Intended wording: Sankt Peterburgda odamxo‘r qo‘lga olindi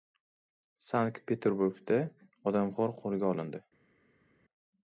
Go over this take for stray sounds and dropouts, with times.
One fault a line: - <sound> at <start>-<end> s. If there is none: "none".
none